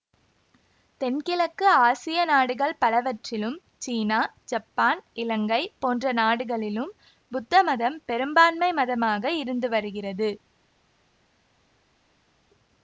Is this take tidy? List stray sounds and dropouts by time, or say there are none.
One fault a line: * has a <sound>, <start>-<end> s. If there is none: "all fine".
all fine